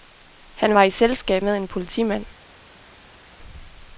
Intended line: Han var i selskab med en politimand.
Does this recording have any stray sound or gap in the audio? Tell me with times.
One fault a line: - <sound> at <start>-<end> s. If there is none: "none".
none